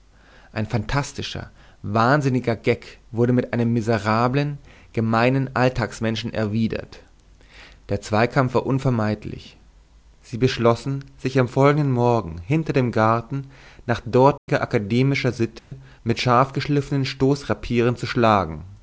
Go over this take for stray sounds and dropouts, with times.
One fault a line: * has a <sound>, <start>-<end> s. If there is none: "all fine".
* has a dropout, 14.4-14.5 s
* has a dropout, 15.6-15.7 s